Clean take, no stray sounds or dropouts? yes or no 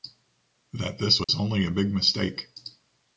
no